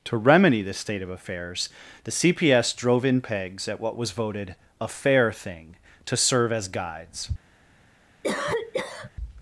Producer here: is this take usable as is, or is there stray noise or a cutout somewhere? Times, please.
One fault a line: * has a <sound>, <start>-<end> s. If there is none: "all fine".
* has a cough, 8.2-9.1 s